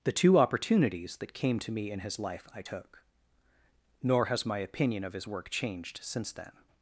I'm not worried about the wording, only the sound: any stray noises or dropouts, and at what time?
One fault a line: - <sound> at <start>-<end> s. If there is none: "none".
none